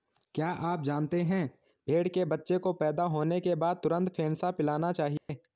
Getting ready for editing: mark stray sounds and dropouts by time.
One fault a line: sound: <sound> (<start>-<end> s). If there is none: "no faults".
sound: dropout (5.2-5.3 s)